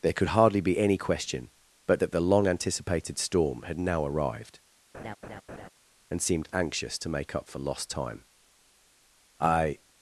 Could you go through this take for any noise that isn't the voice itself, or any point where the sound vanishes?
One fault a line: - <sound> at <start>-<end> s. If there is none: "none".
- laugh at 4.9-5.7 s